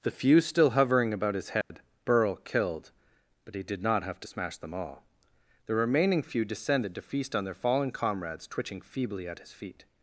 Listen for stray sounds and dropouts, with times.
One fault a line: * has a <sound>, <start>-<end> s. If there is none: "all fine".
* has a dropout, 1.6-1.7 s